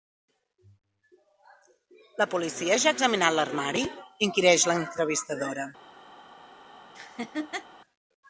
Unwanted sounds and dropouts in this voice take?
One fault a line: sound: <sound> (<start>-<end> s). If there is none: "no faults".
sound: laugh (6.9-7.7 s)